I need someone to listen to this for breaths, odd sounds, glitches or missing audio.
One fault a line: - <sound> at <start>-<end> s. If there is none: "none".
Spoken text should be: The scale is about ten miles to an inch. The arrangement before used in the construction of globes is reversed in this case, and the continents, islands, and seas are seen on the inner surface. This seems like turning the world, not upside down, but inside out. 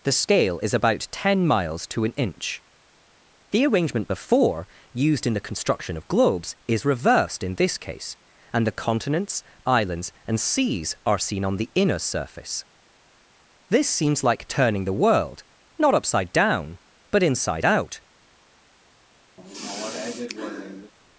- sigh at 19.4-20.9 s